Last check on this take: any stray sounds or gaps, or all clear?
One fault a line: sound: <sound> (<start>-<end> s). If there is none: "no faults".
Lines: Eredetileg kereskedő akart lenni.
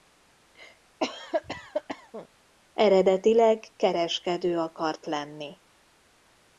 sound: cough (1.0-2.3 s)